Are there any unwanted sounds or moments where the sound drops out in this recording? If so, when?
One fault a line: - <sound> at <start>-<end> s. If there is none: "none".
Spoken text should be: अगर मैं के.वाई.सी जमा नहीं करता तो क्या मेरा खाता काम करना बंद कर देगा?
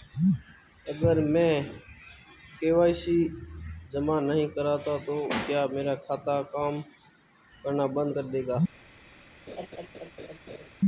- laugh at 9.5-10.7 s